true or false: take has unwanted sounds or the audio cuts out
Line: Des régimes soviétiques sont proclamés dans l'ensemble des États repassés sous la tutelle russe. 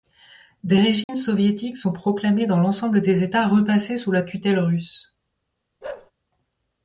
true